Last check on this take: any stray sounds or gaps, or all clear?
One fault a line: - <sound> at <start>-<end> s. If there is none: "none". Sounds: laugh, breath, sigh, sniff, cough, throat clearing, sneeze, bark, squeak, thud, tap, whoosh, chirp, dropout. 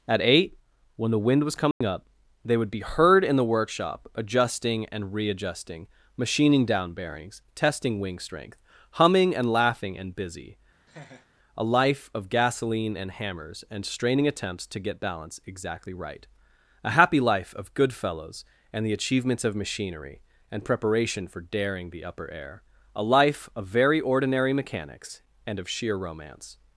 - dropout at 1.7-1.8 s
- laugh at 10.9-11.3 s